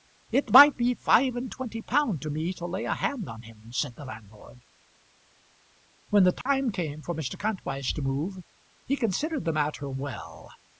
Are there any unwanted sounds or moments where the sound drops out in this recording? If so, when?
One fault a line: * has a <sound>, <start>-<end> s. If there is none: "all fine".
* has a dropout, 6.4-6.5 s